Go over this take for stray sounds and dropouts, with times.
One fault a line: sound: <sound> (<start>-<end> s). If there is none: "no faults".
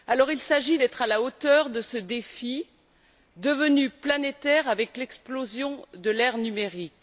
no faults